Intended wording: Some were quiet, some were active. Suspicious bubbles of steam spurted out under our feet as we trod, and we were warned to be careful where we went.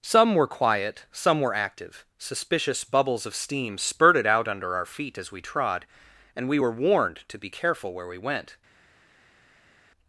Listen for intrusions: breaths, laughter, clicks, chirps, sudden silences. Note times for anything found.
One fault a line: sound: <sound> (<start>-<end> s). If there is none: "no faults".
no faults